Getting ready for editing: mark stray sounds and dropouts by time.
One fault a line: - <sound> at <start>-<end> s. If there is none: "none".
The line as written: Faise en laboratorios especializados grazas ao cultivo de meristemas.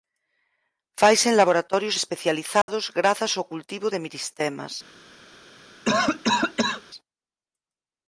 - dropout at 2.6-2.7 s
- cough at 5.8-6.8 s